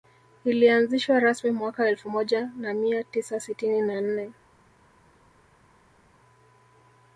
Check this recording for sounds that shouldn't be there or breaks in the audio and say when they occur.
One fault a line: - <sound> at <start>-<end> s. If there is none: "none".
none